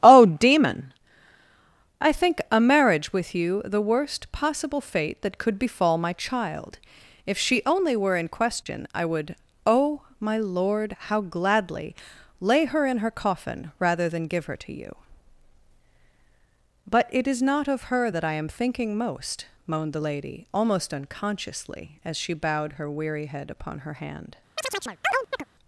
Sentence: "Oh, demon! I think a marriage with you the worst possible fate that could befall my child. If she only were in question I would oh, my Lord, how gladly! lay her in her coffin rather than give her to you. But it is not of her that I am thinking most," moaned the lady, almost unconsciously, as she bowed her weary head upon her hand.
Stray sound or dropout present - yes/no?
yes